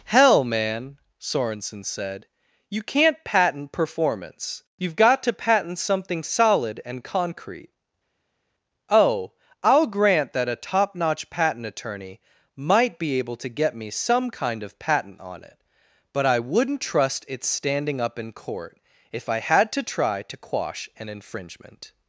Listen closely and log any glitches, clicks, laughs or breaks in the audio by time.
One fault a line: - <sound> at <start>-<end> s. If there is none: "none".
none